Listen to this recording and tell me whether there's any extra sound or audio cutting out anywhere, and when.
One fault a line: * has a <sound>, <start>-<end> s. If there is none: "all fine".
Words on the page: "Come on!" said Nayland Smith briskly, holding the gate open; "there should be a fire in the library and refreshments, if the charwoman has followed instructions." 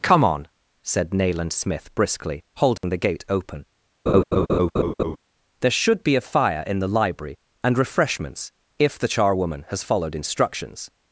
* has a dropout, 2.8-2.8 s
* has a laugh, 4.1-5.2 s